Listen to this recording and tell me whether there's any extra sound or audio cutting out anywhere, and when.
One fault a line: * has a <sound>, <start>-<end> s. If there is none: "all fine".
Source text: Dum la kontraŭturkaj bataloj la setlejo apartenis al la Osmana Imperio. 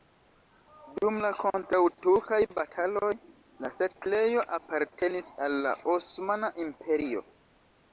all fine